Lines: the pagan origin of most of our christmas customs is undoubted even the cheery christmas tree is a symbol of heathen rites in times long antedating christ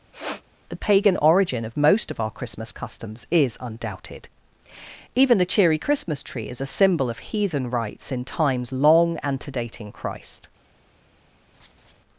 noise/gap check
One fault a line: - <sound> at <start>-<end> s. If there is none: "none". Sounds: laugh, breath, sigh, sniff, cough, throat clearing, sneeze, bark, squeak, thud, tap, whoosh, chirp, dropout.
- sniff at 0.1-0.4 s
- laugh at 11.5-12.0 s